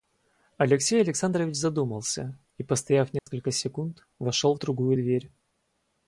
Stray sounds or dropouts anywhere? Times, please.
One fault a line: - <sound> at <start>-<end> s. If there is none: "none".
- dropout at 3.2-3.3 s